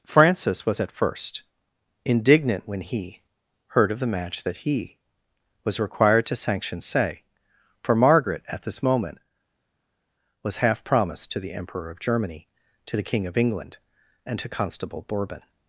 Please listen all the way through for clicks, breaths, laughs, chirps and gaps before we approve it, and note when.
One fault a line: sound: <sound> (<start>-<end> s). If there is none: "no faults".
no faults